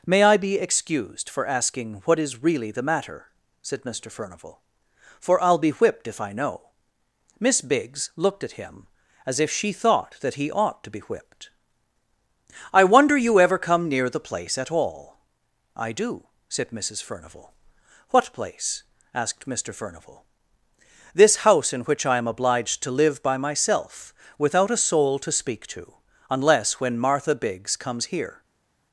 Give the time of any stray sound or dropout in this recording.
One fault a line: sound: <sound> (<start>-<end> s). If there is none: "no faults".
no faults